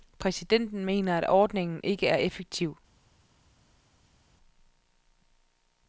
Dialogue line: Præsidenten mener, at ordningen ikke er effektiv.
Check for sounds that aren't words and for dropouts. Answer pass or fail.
pass